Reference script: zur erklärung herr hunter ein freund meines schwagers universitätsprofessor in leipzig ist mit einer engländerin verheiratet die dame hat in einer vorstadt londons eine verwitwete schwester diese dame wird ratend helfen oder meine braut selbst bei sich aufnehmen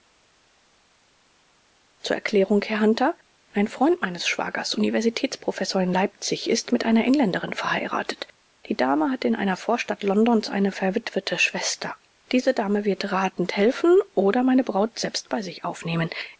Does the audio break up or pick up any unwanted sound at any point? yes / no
no